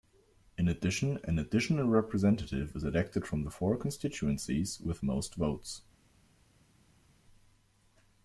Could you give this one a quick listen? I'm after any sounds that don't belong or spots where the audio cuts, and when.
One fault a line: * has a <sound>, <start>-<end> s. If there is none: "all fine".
all fine